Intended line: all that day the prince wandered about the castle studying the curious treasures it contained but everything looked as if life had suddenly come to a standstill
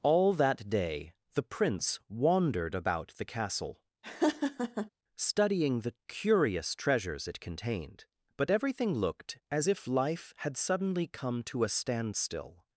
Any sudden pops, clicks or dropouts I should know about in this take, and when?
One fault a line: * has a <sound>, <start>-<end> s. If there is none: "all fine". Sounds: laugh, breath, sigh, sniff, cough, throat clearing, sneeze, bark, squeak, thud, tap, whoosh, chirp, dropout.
* has a laugh, 4.0-4.9 s